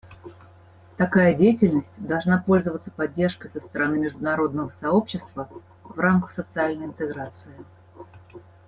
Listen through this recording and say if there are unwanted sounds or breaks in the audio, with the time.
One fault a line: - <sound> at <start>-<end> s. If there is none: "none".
none